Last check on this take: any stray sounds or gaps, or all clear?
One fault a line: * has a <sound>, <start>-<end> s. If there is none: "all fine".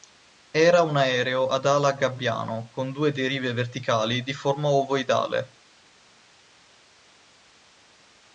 all fine